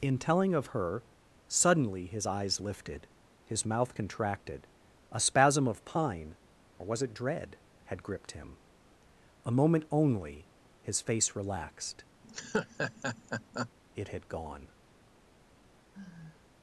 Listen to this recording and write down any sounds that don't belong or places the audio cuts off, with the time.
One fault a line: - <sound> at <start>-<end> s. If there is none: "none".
- laugh at 12.2-13.7 s
- sigh at 15.9-16.5 s